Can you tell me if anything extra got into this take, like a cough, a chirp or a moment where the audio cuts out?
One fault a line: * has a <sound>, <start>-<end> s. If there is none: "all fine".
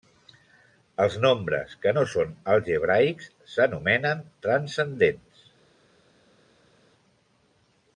all fine